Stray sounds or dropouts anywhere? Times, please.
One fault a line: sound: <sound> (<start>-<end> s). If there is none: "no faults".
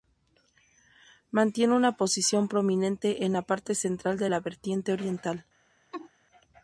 sound: laugh (5.9-6.1 s)